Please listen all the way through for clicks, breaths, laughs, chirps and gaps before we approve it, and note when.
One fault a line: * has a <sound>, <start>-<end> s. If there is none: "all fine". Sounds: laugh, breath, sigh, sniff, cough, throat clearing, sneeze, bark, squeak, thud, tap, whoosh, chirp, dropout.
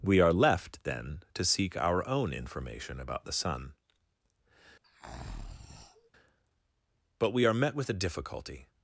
* has a breath, 4.8-6.1 s